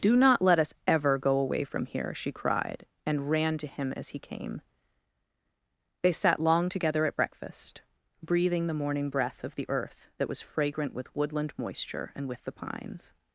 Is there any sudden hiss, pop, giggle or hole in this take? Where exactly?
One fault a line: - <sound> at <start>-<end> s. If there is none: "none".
none